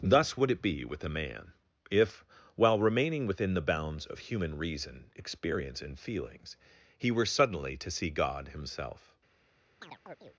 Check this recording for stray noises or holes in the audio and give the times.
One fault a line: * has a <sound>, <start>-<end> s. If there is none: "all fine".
* has a chirp, 9.8-10.4 s